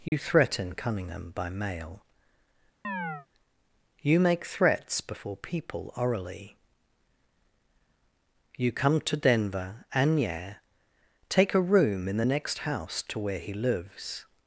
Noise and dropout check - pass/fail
fail